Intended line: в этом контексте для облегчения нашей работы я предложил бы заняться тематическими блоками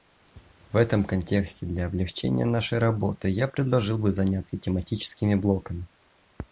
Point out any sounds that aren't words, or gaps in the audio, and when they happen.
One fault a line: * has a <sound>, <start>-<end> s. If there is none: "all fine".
all fine